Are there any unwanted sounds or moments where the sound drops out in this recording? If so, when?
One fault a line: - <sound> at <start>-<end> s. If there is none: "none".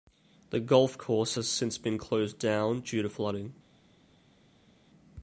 none